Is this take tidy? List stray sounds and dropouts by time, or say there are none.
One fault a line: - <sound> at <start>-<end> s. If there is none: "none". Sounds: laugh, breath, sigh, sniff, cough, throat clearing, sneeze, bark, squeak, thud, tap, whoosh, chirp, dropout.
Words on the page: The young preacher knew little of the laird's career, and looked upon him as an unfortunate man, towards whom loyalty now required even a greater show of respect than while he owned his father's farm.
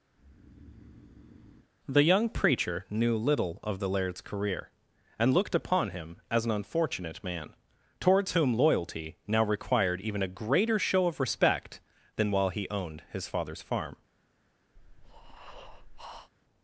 - breath at 0.1-1.7 s
- breath at 14.8-16.3 s